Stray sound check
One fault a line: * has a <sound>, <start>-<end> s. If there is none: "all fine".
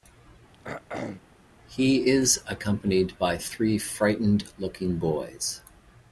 * has a throat clearing, 0.5-1.2 s